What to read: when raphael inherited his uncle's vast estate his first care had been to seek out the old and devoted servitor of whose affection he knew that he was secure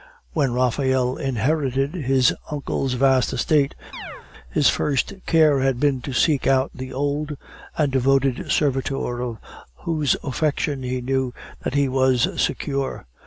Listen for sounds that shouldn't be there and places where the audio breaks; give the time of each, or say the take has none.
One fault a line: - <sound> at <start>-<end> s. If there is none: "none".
- chirp at 3.9-4.3 s